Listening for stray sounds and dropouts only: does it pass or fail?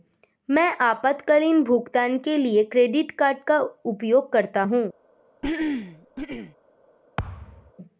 fail